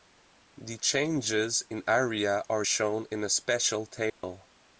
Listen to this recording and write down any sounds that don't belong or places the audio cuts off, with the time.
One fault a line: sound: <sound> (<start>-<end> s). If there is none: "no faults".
sound: dropout (4.1-4.2 s)